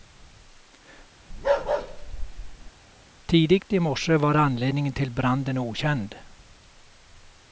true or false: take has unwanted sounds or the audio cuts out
true